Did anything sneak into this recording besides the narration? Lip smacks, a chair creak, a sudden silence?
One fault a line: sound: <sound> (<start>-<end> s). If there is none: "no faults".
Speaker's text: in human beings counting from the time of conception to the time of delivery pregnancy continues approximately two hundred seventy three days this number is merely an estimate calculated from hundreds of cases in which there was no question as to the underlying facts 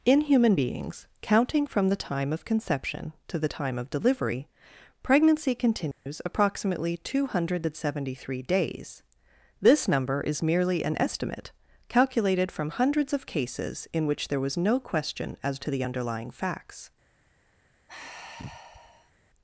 sound: dropout (5.9-6.1 s)
sound: sigh (17.9-19.1 s)